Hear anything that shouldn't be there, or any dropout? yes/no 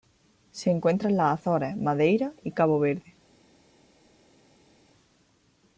no